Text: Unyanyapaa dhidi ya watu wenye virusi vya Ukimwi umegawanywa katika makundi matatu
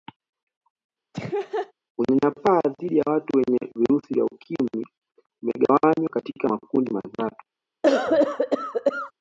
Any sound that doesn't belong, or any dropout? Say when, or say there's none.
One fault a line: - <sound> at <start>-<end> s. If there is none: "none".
- laugh at 1.1-1.7 s
- cough at 7.8-9.1 s